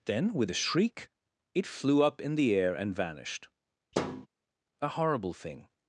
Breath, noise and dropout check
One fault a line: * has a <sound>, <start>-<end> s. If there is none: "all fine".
* has a thud, 3.9-4.3 s